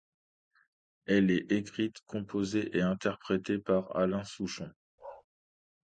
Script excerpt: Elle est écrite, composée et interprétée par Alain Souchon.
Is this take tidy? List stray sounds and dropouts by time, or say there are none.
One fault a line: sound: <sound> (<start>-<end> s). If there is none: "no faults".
sound: bark (5.0-5.2 s)